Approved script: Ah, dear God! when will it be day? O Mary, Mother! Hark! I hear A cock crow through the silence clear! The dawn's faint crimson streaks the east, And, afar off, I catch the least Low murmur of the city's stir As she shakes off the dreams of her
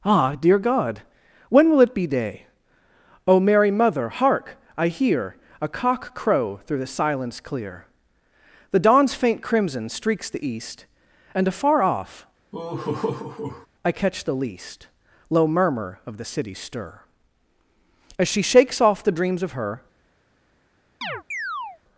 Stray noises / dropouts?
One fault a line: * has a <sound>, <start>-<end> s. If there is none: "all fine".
* has a laugh, 12.5-13.7 s
* has a chirp, 21.0-21.8 s